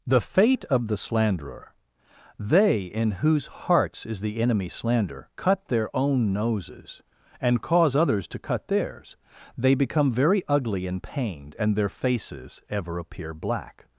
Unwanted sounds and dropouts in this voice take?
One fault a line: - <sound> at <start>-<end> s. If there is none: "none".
none